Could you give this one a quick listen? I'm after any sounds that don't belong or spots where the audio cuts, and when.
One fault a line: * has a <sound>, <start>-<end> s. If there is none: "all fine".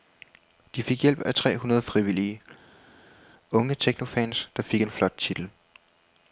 all fine